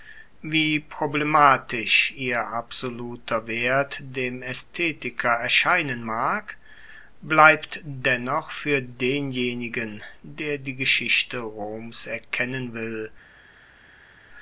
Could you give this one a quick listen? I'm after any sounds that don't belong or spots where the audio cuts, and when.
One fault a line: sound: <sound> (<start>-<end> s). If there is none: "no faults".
no faults